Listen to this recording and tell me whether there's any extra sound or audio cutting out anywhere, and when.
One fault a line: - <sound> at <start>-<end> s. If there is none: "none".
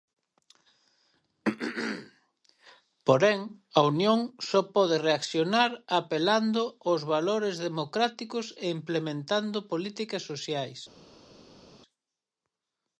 none